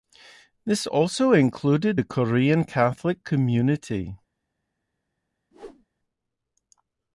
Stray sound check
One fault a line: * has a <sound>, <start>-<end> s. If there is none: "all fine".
* has a whoosh, 5.5-5.9 s